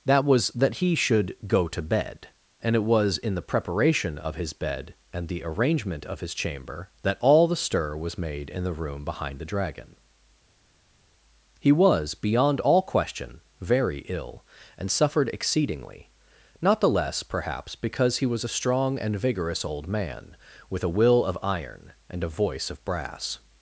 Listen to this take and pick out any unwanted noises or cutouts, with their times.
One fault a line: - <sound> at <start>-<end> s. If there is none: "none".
none